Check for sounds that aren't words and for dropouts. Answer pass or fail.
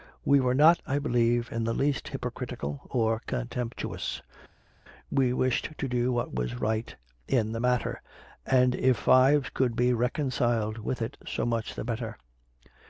pass